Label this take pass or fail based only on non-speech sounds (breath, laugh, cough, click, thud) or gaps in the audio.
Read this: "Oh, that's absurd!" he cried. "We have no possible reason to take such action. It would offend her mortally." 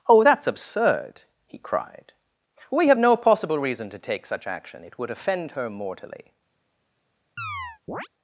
fail